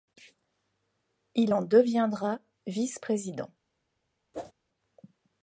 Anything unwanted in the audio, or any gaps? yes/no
yes